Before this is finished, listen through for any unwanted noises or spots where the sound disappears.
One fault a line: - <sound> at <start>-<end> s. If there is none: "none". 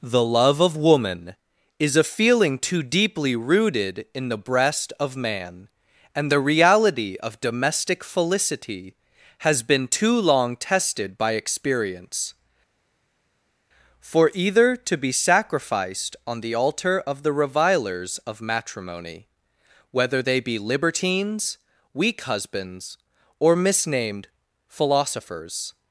none